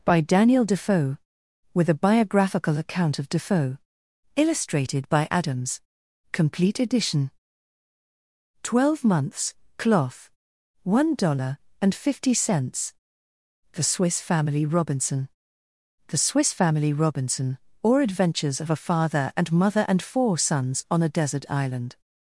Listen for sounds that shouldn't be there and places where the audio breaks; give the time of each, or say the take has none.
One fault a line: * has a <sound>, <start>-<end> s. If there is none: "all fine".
all fine